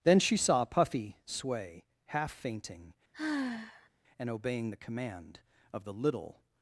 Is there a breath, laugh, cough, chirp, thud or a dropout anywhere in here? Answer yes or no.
yes